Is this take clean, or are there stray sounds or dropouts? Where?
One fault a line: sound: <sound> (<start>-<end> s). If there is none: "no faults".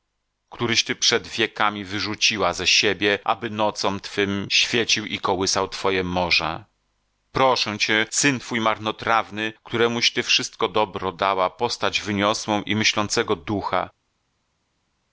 no faults